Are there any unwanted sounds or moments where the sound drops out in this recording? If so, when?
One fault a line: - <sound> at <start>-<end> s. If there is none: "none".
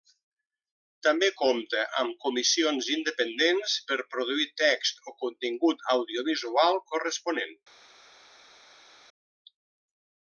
none